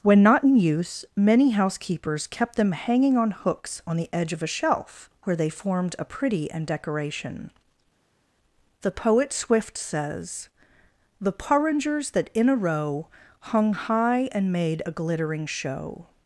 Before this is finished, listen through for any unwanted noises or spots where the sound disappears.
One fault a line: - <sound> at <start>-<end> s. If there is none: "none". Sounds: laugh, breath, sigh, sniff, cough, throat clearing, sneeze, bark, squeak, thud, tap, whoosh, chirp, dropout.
none